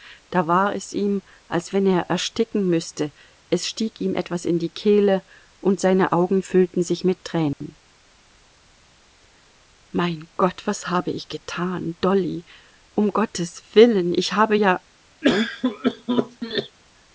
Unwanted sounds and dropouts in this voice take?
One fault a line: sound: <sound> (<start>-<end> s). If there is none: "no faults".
sound: dropout (7.5-7.6 s)
sound: cough (15.2-16.8 s)